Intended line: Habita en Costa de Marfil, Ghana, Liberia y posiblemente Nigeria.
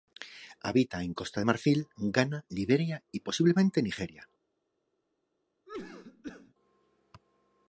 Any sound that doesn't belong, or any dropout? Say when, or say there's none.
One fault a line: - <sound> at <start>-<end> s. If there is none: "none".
- cough at 5.7-6.5 s